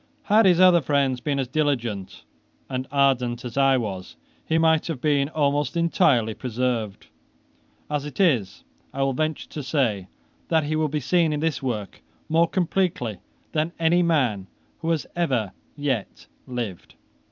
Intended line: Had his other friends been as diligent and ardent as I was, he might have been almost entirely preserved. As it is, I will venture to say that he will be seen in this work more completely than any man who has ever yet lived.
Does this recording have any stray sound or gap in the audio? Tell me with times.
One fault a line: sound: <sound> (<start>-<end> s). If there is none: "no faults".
no faults